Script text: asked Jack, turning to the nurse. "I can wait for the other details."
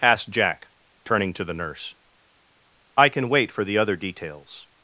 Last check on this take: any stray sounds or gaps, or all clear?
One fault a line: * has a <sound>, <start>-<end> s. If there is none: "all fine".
all fine